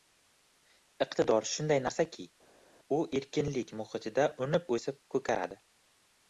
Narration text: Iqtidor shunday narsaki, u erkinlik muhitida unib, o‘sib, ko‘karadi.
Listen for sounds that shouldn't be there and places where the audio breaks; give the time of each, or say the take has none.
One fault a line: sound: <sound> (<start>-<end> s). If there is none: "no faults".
no faults